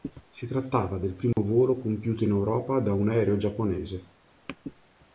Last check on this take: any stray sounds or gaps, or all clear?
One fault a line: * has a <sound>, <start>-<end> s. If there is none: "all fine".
* has a dropout, 1.3-1.4 s